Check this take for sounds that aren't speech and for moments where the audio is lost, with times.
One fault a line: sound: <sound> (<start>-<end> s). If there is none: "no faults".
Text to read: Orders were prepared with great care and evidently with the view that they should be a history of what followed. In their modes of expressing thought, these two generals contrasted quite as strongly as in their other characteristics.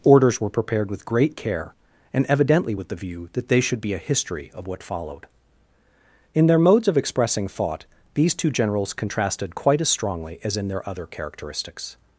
no faults